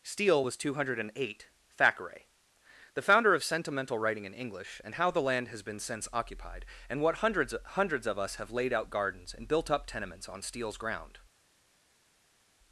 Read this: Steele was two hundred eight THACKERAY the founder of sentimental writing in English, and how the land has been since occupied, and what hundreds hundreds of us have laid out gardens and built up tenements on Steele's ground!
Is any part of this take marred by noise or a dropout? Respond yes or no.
no